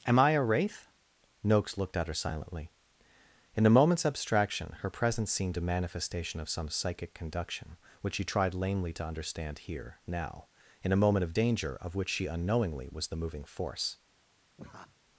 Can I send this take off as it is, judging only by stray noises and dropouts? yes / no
no